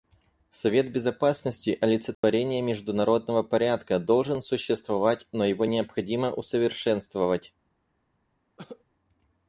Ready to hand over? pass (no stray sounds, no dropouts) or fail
fail